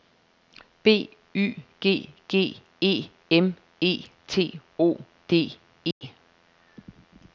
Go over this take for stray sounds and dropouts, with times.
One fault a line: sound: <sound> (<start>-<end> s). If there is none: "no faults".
sound: dropout (5.9-6.0 s)